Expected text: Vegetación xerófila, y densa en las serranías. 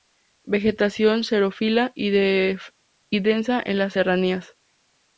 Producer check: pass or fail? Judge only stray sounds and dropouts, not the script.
pass